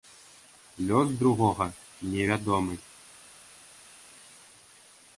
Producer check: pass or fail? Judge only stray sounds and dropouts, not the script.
pass